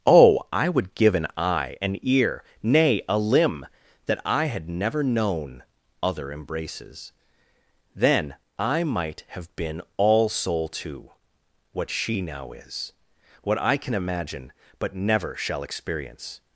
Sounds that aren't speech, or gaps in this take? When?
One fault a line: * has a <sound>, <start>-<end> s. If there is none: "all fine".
all fine